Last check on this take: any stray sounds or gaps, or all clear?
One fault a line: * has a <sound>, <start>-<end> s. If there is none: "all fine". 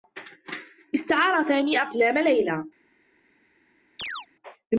* has a chirp, 4.0-4.3 s